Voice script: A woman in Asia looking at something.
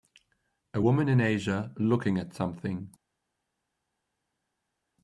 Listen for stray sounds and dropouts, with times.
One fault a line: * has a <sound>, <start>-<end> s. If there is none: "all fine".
all fine